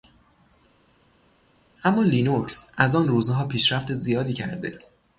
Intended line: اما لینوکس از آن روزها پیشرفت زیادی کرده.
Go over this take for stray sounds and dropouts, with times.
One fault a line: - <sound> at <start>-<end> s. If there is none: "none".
none